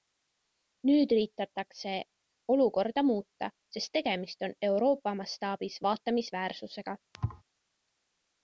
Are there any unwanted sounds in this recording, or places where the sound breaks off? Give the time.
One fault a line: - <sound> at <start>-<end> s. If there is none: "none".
- thud at 7.1-7.4 s